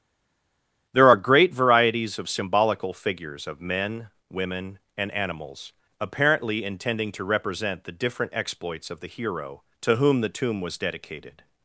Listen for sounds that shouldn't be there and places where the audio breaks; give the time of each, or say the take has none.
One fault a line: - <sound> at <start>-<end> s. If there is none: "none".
none